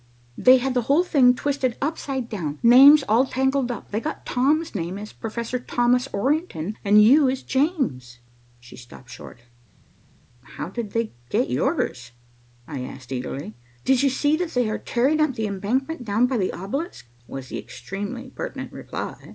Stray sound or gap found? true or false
false